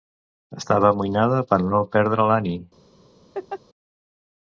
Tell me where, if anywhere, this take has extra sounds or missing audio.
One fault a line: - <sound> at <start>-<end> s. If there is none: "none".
- laugh at 3.3-3.6 s